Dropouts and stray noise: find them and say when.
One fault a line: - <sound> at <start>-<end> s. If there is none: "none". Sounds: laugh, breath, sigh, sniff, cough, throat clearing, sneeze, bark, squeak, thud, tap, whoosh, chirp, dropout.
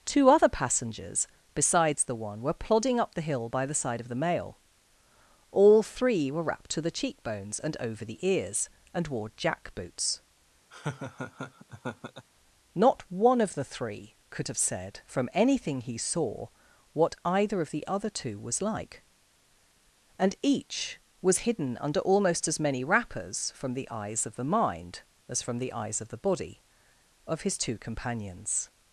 - laugh at 10.7-12.3 s